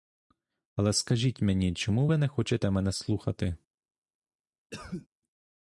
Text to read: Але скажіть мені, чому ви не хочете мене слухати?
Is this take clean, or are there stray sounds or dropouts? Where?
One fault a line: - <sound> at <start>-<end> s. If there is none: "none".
- cough at 4.7-5.1 s